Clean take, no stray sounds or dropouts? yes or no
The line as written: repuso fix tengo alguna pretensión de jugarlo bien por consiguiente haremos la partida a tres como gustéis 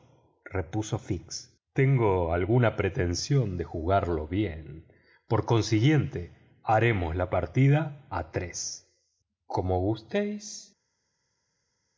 yes